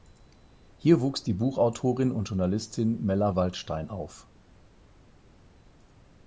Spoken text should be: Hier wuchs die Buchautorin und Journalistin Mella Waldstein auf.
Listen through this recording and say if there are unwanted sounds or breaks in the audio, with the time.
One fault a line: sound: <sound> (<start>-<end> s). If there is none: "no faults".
no faults